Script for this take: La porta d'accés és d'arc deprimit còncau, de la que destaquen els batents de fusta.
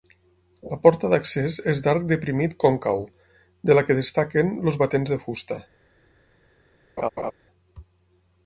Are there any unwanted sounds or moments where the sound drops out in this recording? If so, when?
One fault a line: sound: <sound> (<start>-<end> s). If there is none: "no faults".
sound: laugh (7.0-7.3 s)